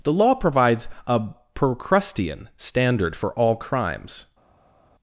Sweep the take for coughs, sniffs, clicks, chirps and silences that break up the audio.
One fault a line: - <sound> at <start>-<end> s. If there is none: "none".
none